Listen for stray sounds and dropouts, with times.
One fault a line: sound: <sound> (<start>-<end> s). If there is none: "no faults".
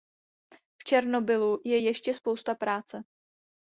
no faults